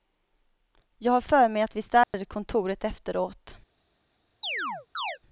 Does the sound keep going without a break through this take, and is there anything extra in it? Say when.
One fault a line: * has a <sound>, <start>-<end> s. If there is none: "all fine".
* has a dropout, 2.0-2.1 s
* has a chirp, 4.4-5.2 s